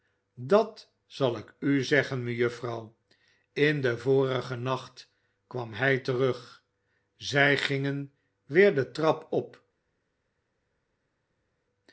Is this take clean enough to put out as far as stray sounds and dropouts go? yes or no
yes